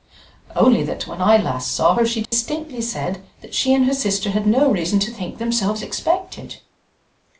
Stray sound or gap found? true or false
true